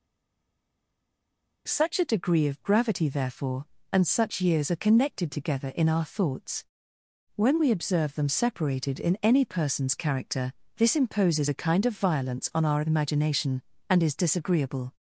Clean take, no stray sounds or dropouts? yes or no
yes